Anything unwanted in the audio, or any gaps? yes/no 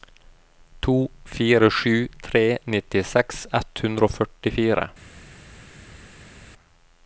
no